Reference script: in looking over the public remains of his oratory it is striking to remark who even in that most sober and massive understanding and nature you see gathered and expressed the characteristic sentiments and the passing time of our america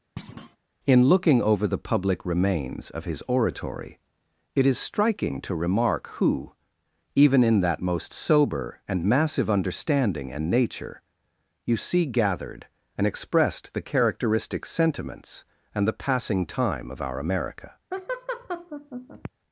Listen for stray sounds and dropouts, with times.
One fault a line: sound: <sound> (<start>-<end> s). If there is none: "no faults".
sound: thud (0.2-0.6 s)
sound: laugh (17.9-19.3 s)